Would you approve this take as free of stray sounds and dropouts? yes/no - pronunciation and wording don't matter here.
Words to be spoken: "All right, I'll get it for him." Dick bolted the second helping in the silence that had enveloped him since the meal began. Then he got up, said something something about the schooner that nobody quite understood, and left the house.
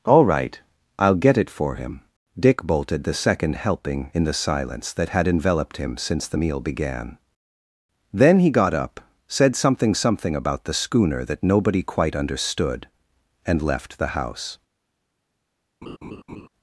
no